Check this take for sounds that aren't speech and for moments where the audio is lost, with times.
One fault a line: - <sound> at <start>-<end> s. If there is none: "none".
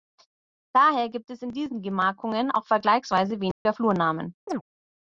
- dropout at 3.5-3.7 s
- chirp at 4.5-4.6 s